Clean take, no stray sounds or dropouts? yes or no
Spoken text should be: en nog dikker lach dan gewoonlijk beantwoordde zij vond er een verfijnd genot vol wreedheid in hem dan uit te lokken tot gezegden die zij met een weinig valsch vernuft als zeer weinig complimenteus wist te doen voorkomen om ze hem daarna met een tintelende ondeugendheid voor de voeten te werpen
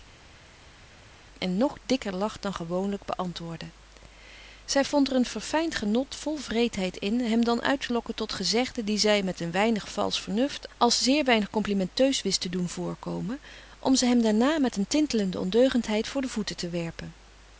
yes